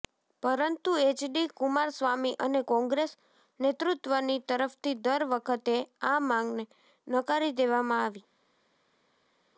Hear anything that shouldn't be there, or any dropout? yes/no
no